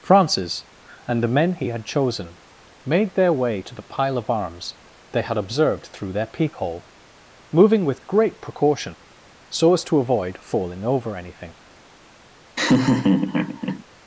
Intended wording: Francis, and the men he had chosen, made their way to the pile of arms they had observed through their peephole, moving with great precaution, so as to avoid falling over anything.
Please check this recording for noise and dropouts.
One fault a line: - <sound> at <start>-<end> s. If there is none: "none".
- laugh at 12.6-13.8 s